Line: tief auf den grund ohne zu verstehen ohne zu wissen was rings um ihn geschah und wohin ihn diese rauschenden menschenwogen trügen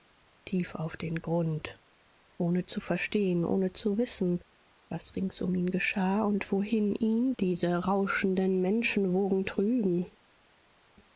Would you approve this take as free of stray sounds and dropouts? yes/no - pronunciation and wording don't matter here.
yes